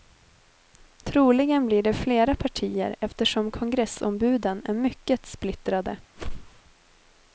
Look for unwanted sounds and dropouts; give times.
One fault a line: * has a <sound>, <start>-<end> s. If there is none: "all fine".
* has a whoosh, 6.2-6.6 s